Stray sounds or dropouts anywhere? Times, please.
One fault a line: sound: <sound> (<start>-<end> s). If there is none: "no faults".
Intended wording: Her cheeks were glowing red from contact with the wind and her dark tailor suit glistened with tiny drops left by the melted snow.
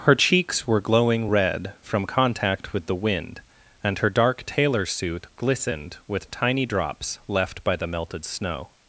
no faults